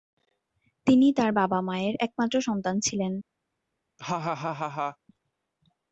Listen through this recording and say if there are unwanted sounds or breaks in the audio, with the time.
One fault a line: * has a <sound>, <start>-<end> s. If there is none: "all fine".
* has a laugh, 4.0-5.0 s